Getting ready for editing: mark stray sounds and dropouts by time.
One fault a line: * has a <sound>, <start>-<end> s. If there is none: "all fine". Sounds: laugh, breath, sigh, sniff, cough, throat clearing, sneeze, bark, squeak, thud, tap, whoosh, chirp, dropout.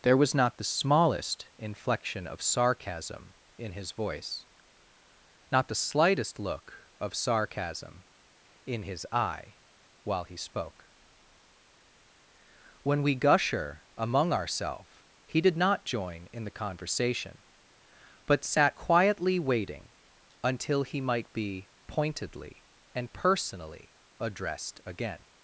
all fine